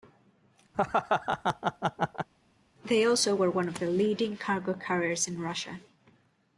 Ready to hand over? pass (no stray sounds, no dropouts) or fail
fail